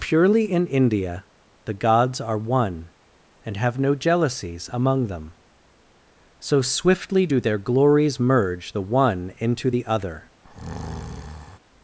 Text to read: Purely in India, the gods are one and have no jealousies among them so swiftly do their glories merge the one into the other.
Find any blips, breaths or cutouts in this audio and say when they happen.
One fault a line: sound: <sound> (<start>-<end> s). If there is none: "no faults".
sound: breath (10.4-11.6 s)